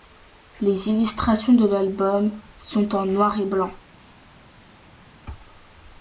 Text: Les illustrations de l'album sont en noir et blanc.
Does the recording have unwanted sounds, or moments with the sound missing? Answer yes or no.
no